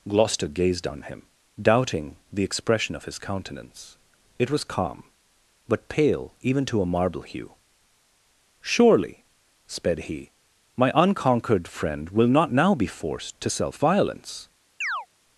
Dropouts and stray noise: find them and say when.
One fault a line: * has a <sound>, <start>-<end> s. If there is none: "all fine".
* has a chirp, 14.8-15.1 s